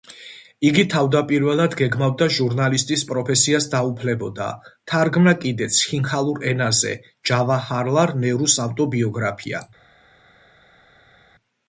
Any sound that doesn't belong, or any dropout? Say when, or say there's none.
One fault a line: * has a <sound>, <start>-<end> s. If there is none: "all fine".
all fine